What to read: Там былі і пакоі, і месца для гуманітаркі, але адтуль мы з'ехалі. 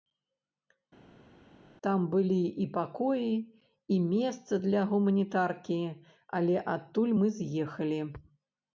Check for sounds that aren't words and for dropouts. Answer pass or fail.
pass